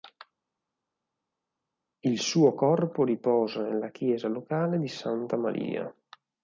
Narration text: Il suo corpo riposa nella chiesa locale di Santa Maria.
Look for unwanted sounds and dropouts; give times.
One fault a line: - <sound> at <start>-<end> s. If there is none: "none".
none